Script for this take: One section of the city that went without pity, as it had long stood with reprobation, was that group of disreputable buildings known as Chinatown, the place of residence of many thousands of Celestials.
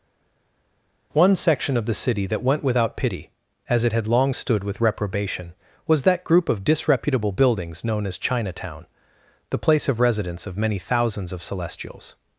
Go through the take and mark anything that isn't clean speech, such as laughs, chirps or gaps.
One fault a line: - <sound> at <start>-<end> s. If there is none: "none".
none